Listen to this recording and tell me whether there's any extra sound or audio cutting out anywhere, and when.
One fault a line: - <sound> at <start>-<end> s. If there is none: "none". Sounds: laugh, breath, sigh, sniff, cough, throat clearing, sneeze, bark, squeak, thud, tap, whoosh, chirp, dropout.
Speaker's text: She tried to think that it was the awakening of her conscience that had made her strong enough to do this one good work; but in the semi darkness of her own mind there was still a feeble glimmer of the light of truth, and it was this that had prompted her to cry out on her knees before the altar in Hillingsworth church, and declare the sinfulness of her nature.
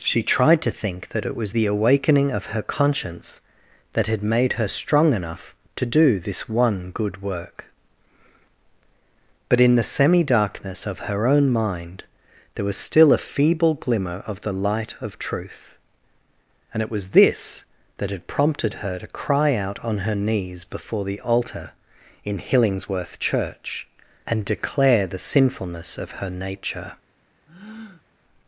- breath at 27.5-28.1 s